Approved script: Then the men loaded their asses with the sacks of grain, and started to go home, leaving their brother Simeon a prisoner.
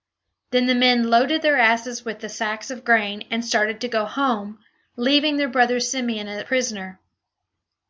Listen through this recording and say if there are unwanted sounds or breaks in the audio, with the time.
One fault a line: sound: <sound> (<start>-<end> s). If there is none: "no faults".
no faults